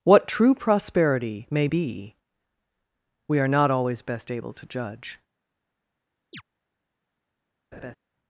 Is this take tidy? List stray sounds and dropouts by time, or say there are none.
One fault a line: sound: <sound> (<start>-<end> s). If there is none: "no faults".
sound: chirp (6.3-6.4 s)
sound: laugh (7.7-8.0 s)